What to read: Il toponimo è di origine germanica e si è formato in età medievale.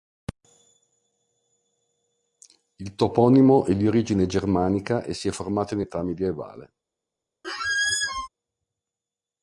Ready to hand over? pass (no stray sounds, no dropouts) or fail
fail